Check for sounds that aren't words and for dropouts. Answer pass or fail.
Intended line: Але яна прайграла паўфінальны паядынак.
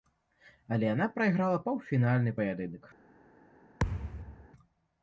fail